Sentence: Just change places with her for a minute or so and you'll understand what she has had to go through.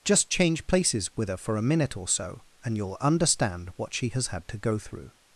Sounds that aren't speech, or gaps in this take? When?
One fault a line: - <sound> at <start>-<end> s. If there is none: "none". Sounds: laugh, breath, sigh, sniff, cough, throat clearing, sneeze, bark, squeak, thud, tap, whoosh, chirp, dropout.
none